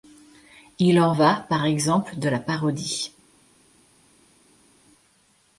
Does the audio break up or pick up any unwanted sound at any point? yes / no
no